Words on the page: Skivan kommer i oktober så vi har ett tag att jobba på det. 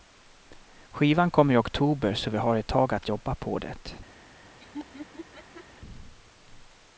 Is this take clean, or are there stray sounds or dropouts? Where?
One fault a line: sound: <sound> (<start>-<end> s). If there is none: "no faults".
sound: laugh (4.6-5.7 s)